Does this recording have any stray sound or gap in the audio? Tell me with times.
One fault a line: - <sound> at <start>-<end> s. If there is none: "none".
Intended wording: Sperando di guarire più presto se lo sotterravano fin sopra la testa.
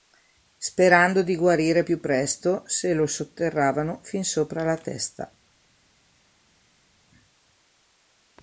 none